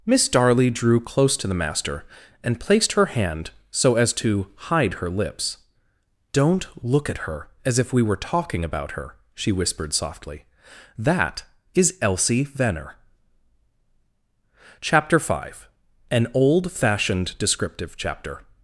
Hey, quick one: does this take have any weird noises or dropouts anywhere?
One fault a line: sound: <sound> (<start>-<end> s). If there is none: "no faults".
no faults